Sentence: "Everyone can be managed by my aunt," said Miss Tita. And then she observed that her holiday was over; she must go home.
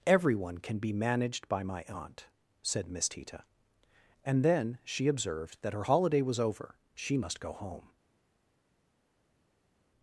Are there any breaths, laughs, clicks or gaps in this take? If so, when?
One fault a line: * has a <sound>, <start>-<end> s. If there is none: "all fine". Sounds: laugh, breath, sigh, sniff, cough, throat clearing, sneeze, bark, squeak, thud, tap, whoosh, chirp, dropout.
all fine